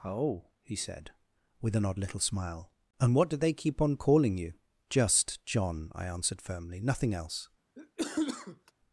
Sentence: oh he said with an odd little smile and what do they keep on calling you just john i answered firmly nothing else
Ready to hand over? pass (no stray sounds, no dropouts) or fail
fail